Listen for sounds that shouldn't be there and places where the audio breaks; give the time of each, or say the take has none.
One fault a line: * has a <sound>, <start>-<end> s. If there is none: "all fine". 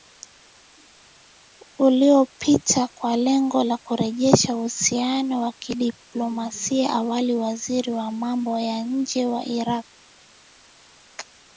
all fine